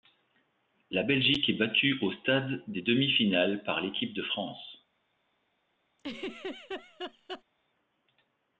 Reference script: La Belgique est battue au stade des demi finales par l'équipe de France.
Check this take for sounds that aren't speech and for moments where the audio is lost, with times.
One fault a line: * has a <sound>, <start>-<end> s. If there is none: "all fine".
* has a laugh, 6.0-7.4 s